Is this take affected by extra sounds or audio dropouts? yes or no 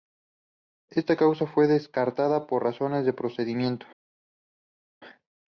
no